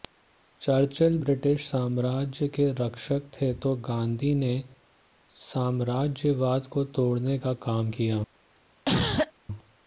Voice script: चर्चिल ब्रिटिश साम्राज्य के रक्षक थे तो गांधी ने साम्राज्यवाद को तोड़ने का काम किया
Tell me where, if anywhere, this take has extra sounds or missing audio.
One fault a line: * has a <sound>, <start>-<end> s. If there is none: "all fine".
* has a cough, 8.9-9.3 s